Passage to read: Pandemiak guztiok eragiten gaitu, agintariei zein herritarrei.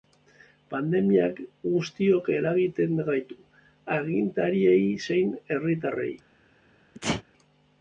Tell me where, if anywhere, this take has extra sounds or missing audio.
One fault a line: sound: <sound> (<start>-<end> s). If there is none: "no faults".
sound: sneeze (6.9-7.2 s)